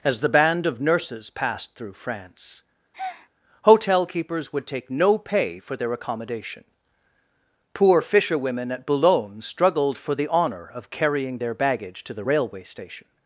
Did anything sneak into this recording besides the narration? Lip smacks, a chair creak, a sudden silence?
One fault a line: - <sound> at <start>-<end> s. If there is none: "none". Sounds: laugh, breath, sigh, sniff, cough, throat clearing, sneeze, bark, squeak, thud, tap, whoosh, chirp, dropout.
- breath at 2.9-3.3 s